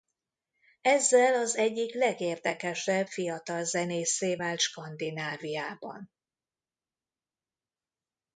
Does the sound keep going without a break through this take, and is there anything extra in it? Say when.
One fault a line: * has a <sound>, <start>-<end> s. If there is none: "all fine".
all fine